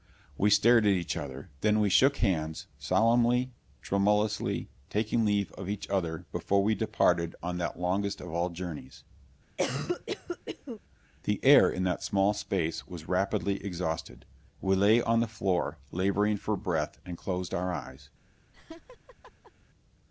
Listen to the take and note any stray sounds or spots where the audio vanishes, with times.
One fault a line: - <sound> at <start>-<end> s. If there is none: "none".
- cough at 9.6-10.8 s
- laugh at 18.5-19.5 s